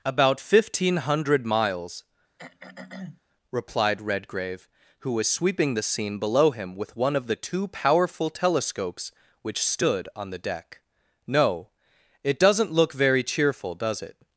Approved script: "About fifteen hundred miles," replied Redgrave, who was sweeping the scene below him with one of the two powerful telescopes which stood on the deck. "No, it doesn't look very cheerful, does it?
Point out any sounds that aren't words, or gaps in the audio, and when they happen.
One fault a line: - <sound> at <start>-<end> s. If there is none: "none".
- throat clearing at 2.4-3.2 s